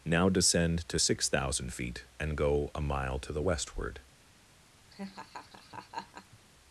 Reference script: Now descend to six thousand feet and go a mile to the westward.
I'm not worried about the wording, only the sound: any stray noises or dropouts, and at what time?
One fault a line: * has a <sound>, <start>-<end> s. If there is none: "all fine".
* has a laugh, 4.9-6.4 s